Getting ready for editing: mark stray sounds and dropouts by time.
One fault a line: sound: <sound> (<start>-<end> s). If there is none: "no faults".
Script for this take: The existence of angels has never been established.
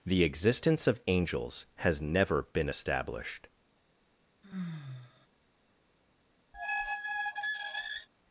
sound: sigh (4.4-5.3 s)
sound: squeak (6.5-8.1 s)